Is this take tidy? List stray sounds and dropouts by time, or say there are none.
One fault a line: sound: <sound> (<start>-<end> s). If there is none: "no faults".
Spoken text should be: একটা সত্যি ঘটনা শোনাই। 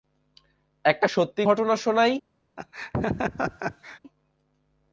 sound: laugh (2.6-4.0 s)